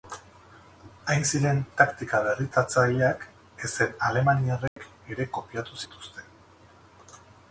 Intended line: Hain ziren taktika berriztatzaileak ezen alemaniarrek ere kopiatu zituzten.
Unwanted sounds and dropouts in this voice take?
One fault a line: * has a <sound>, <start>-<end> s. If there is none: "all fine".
* has a dropout, 4.7-4.8 s